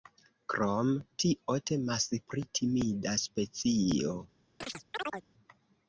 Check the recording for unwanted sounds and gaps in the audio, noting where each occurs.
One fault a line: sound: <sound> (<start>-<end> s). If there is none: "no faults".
sound: chirp (4.6-5.3 s)